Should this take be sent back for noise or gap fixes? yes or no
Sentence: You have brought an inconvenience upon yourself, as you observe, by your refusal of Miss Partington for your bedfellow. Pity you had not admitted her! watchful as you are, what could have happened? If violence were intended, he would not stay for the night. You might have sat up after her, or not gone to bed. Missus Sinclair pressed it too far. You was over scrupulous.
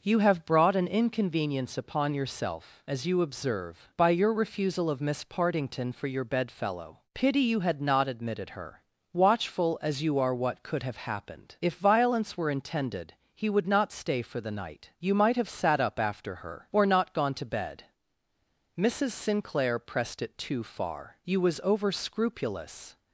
no